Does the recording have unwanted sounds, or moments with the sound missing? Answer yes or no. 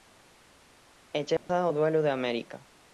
yes